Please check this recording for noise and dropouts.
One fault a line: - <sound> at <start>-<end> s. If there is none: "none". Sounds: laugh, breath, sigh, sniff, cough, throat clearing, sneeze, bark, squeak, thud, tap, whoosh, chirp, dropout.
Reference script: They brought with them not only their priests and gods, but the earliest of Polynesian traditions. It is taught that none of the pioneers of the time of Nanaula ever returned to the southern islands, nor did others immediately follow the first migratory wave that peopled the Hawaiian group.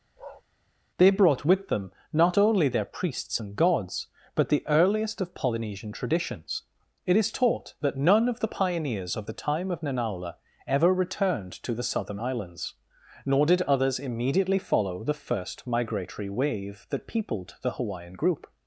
- bark at 0.2-0.4 s